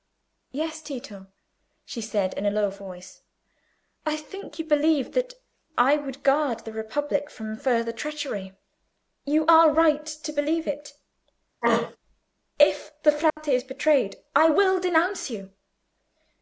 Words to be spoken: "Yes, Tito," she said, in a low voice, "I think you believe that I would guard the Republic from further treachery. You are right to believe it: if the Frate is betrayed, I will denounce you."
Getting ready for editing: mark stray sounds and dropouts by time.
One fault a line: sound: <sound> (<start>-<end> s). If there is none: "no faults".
sound: throat clearing (11.6-12.0 s)
sound: dropout (13.3-13.4 s)